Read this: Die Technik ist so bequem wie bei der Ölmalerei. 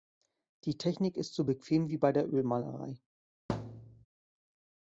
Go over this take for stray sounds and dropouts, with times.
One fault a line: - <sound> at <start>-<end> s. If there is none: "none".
- thud at 3.5-4.1 s